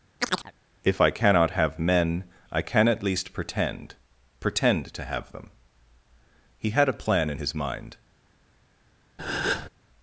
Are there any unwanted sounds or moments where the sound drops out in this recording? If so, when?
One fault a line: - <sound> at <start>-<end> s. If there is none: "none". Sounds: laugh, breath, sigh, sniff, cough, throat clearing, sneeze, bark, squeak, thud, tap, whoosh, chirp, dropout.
- chirp at 0.2-0.5 s
- breath at 9.2-9.7 s